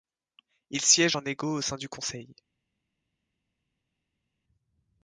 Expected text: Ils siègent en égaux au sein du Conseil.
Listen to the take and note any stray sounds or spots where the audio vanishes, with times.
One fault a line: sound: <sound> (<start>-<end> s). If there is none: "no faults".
no faults